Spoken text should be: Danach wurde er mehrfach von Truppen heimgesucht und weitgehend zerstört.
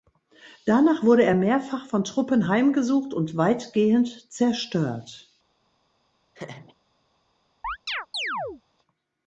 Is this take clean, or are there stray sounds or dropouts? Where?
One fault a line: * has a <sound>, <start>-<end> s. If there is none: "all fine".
* has a laugh, 6.3-6.8 s
* has a chirp, 7.6-8.6 s